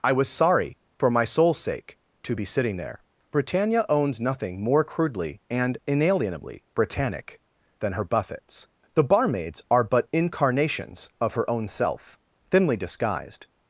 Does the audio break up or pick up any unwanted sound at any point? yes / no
no